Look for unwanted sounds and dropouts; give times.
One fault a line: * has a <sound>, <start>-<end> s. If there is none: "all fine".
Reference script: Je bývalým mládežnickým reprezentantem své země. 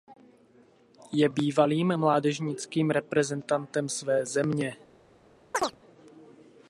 * has a chirp, 5.5-5.8 s